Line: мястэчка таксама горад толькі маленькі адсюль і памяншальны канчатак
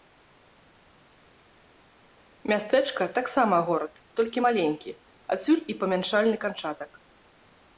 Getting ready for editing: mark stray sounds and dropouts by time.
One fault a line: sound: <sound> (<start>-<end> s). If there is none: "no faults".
no faults